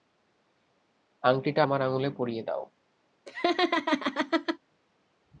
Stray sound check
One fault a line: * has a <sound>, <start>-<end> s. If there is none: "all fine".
* has a laugh, 3.3-4.6 s